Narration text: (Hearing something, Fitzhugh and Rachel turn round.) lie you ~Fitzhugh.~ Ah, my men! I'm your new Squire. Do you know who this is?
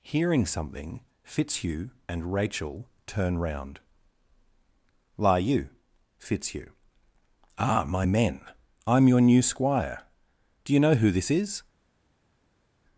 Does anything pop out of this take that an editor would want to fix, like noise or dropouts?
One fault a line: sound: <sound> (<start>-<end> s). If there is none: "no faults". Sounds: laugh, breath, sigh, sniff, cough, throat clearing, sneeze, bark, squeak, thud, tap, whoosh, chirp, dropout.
no faults